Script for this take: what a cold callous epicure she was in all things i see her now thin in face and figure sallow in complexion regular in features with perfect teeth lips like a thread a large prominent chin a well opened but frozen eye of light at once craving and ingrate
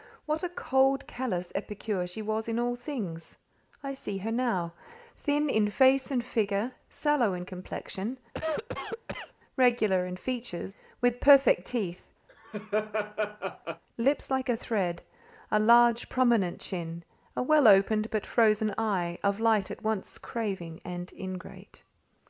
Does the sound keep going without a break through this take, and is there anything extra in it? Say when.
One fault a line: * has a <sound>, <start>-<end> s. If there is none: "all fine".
* has a cough, 8.3-9.3 s
* has a laugh, 12.3-13.8 s